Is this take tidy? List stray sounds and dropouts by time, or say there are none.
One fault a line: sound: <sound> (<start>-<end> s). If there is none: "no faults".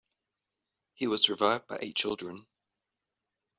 no faults